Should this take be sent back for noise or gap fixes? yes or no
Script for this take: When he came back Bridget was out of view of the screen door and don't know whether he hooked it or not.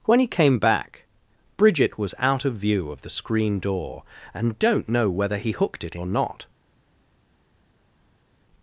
no